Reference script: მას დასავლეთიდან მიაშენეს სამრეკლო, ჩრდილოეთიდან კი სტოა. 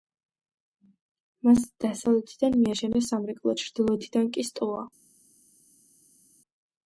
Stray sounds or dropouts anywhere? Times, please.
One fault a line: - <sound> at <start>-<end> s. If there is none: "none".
none